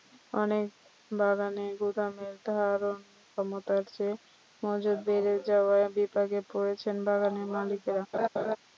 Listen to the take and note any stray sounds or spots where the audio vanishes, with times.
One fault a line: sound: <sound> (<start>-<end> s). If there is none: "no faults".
sound: laugh (8.1-8.6 s)